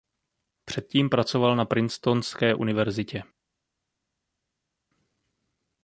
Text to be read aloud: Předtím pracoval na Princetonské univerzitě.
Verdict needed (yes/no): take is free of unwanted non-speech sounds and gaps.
yes